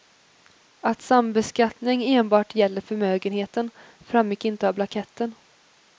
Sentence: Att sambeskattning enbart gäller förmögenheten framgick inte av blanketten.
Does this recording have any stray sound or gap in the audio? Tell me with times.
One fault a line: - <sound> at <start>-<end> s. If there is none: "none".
none